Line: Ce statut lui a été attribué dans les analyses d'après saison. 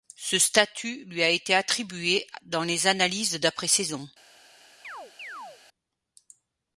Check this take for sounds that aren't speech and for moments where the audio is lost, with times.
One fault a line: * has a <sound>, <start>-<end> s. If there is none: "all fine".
* has a chirp, 4.8-5.6 s